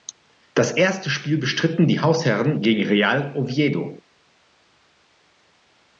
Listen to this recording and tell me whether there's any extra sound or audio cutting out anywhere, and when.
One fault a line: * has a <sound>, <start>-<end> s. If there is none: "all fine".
all fine